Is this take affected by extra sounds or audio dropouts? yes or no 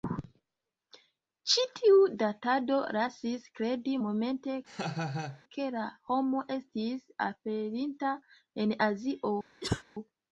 yes